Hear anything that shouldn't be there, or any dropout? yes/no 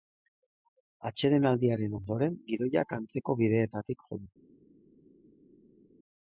no